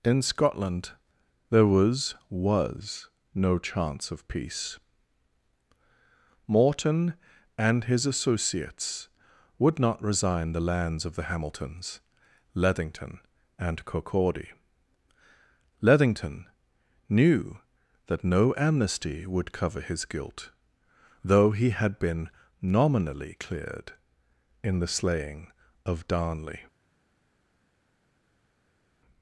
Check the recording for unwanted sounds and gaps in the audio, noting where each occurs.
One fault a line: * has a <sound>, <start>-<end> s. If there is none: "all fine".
all fine